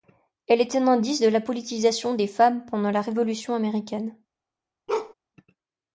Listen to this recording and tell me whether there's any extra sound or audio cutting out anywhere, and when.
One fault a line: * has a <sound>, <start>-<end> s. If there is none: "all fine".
* has a bark, 4.9-5.1 s